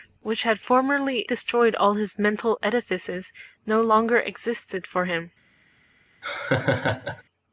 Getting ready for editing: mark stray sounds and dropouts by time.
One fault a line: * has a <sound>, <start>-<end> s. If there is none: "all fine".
* has a laugh, 6.2-7.2 s